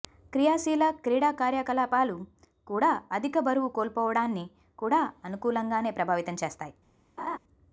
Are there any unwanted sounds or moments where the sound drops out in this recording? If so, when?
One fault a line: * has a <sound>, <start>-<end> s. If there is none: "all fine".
* has a laugh, 7.2-7.4 s